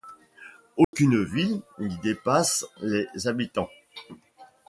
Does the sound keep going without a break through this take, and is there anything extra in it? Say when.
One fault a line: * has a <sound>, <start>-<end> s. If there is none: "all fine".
* has a dropout, 0.8-0.9 s